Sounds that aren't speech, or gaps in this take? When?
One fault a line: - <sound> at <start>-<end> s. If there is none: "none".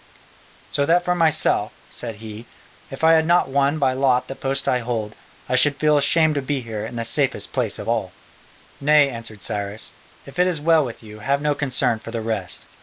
none